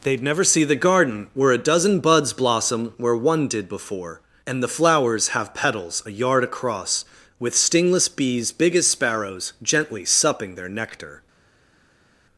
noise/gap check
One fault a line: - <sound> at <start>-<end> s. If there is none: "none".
none